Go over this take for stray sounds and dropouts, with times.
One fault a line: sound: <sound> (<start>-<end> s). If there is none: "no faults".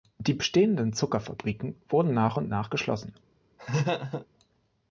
sound: laugh (3.6-4.3 s)